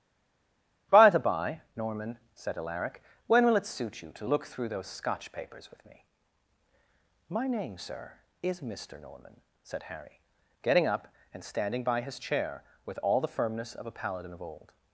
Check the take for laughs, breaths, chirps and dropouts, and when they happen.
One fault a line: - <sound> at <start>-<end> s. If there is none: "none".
none